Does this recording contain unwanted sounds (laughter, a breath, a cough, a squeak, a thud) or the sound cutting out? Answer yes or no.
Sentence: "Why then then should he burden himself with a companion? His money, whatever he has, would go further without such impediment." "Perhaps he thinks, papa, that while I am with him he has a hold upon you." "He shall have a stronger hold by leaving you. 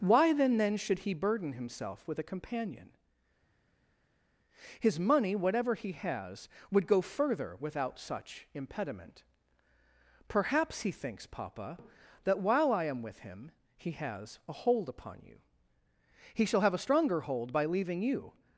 no